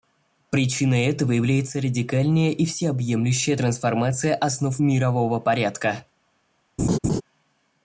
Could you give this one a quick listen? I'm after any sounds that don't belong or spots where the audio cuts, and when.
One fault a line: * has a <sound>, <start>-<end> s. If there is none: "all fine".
* has a laugh, 6.8-7.2 s